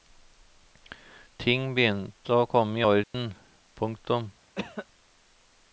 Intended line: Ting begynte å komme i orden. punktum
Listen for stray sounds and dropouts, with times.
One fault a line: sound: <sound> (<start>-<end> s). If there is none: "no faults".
sound: dropout (3.0-3.1 s)
sound: cough (4.5-4.9 s)